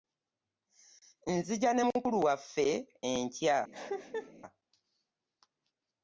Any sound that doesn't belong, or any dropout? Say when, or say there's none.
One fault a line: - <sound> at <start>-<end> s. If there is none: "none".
- cough at 3.7-4.3 s